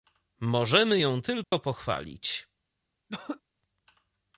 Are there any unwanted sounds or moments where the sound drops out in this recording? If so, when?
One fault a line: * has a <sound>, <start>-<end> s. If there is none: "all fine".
* has a dropout, 1.4-1.5 s
* has a throat clearing, 3.1-3.4 s